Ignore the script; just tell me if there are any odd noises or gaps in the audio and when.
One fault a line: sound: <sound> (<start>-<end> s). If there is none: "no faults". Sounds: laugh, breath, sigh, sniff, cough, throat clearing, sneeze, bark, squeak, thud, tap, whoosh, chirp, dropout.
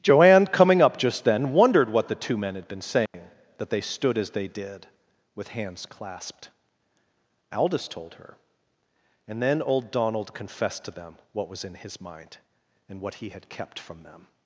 sound: dropout (3.1-3.1 s)